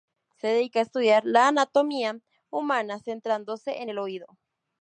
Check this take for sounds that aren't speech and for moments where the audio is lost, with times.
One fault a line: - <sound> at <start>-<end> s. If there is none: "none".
none